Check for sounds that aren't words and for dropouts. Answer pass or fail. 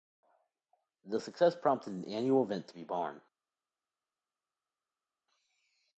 pass